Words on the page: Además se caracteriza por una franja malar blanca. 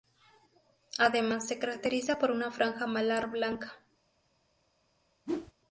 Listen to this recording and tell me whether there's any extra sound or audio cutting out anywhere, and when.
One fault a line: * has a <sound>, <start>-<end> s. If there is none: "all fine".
* has a whoosh, 5.3-5.5 s